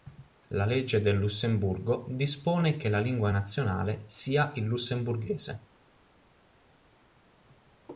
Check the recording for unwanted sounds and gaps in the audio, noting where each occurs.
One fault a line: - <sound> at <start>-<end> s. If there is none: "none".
none